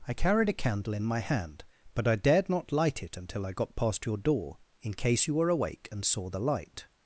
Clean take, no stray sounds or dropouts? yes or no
yes